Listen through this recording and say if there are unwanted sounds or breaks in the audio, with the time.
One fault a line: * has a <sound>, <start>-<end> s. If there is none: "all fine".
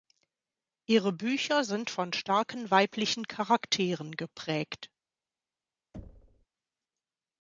* has a thud, 5.9-6.5 s